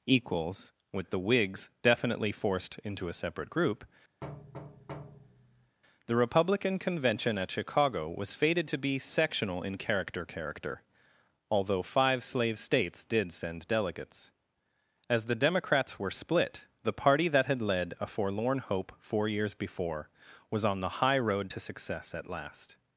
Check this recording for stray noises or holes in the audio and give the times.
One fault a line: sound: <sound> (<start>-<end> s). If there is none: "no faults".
sound: thud (4.2-5.8 s)